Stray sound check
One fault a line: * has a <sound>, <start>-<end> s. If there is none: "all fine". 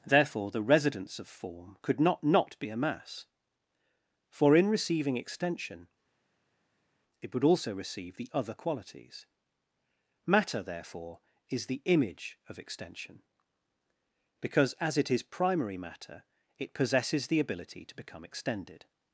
all fine